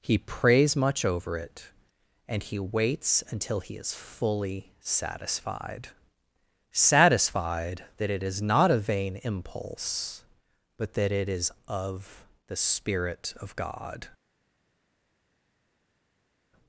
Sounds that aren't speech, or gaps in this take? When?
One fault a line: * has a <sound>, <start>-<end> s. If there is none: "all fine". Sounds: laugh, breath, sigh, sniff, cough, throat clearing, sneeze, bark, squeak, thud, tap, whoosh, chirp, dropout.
all fine